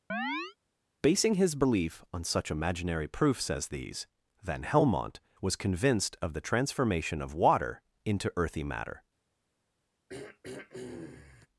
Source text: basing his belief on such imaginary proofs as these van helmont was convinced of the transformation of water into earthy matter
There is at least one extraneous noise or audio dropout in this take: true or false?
true